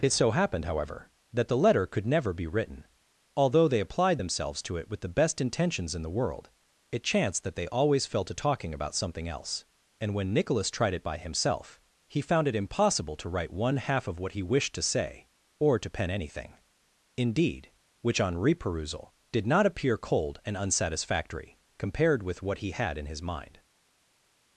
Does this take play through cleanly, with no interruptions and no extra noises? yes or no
yes